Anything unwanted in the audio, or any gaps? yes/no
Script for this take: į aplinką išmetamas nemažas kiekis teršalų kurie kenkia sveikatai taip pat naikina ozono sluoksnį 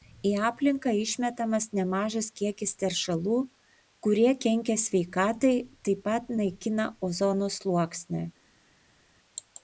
no